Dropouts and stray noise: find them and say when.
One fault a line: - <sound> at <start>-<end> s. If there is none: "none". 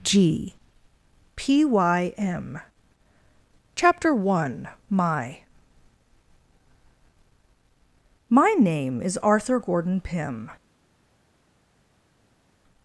none